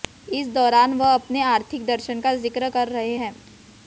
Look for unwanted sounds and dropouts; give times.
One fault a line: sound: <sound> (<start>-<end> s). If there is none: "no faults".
no faults